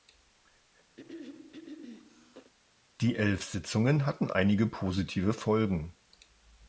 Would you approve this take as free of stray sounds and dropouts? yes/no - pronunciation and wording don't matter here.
no